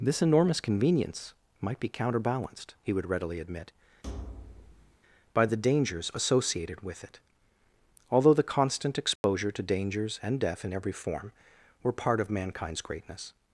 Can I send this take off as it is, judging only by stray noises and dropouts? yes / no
no